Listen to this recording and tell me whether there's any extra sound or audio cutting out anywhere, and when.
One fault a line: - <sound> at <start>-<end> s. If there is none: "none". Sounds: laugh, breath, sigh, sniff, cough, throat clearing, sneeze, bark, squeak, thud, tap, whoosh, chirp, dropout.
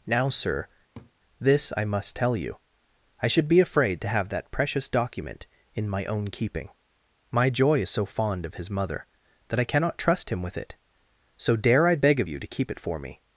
- laugh at 0.9-1.1 s